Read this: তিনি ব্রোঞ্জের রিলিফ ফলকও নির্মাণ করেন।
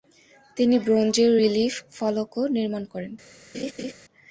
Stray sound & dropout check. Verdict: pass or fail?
fail